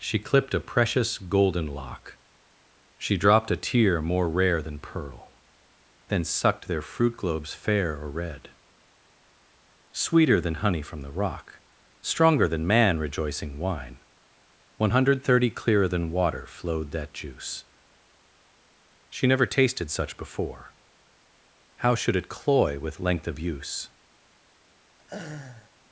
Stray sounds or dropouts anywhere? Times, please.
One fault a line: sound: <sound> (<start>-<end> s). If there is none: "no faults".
sound: laugh (25.0-25.7 s)